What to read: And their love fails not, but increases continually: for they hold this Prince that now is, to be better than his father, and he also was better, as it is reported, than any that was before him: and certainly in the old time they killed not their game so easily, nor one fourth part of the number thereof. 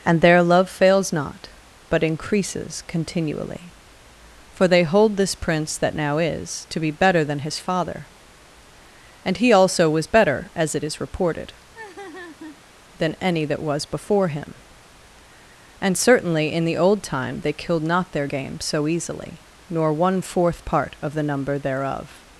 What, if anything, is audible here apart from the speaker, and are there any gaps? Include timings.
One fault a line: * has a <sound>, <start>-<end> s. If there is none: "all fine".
* has a laugh, 11.7-12.6 s